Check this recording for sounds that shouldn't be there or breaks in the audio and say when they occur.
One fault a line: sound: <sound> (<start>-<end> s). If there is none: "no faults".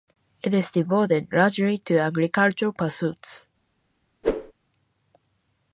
sound: whoosh (4.2-4.5 s)